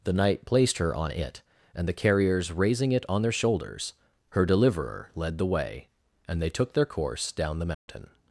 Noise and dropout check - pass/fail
fail